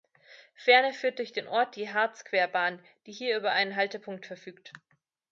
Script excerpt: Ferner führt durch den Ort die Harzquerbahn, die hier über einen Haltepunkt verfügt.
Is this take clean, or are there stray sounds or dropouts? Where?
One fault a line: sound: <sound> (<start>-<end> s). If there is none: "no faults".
no faults